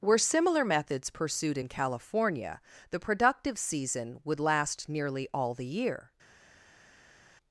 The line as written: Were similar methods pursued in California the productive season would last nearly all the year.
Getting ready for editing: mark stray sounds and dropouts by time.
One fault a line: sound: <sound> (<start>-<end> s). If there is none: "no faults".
no faults